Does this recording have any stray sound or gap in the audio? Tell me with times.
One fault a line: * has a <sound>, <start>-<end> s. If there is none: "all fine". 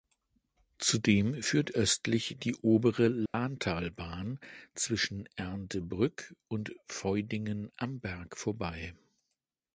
* has a dropout, 3.3-3.3 s